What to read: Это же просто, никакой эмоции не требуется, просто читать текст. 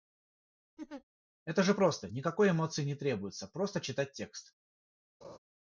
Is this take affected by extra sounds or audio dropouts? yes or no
yes